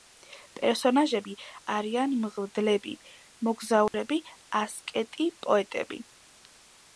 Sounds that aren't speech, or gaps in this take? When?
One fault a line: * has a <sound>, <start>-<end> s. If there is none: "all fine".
* has a dropout, 3.9-3.9 s